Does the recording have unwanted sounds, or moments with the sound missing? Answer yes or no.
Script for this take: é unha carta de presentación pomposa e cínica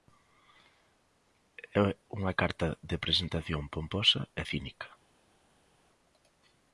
no